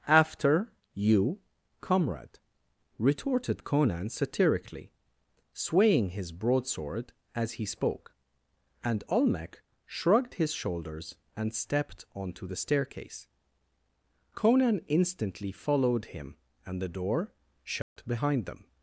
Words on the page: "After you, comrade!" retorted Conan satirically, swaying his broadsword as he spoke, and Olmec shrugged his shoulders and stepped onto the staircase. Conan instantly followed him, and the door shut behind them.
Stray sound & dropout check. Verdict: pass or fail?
fail